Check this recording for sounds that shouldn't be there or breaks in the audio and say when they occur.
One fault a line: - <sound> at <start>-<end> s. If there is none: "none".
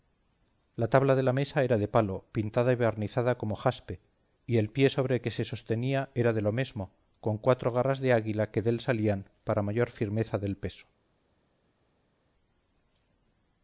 none